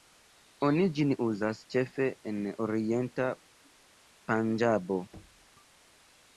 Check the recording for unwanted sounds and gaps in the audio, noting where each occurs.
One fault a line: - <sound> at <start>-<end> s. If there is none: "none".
- thud at 5.1-5.5 s